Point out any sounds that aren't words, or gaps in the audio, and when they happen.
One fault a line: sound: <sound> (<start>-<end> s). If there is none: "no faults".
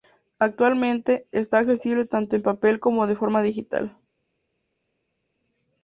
no faults